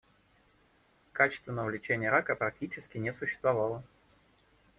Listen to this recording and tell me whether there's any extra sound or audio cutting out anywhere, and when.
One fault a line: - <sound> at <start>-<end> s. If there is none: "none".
none